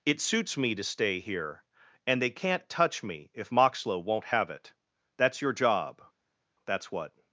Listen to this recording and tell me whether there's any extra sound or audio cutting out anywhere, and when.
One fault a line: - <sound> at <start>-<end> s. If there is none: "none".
none